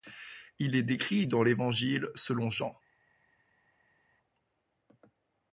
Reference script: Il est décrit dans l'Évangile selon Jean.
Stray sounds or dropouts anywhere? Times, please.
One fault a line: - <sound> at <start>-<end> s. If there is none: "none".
none